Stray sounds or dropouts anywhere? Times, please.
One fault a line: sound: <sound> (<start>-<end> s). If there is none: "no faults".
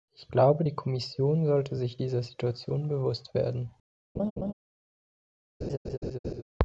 sound: laugh (4.2-4.5 s)
sound: laugh (5.6-6.4 s)